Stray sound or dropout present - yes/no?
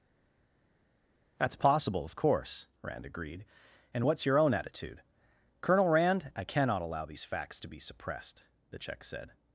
no